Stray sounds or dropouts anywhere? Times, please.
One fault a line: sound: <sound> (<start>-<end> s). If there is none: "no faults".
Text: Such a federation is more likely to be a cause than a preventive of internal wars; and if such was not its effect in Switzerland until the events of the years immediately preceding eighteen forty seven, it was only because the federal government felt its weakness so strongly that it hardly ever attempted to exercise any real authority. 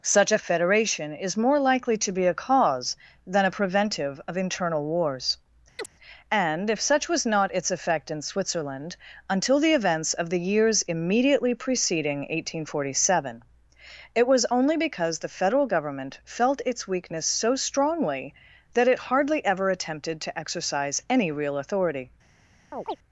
sound: chirp (5.8-5.9 s)
sound: chirp (22.7-23.0 s)